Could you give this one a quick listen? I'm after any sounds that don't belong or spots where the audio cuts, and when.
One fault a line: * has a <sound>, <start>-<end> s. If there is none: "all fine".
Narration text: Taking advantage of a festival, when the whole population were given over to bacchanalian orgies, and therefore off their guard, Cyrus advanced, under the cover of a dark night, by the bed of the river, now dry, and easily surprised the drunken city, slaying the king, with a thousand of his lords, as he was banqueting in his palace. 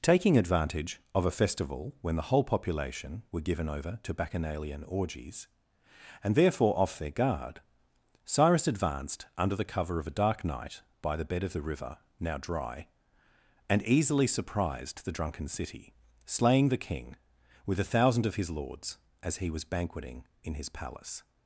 all fine